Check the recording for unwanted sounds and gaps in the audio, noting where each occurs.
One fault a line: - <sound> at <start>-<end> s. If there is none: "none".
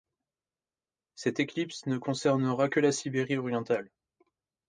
none